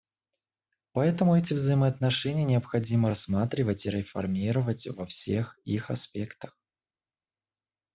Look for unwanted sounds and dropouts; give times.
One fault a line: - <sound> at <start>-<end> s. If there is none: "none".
none